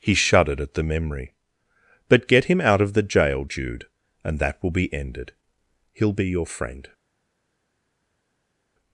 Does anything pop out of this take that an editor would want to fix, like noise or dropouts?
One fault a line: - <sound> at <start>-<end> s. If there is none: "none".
none